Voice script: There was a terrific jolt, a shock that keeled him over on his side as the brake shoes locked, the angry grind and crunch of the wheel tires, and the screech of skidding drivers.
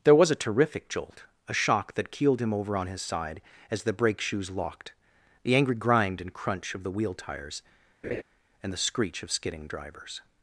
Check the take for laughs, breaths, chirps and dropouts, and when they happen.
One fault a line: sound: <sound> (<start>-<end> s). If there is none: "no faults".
sound: laugh (8.0-8.2 s)